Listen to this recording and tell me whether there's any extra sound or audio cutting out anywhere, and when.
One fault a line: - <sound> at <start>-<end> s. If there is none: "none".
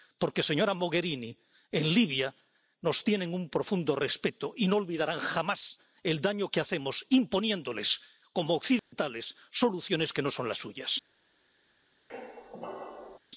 - dropout at 8.8-8.9 s
- squeak at 12.1-13.2 s